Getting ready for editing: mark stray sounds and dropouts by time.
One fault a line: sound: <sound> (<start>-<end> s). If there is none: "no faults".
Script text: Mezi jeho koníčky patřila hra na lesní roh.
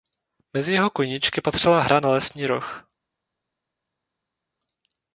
no faults